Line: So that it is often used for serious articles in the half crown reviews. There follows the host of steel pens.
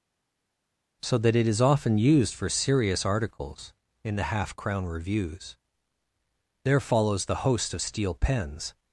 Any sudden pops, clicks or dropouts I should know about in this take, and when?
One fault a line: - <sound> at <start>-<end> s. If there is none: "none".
none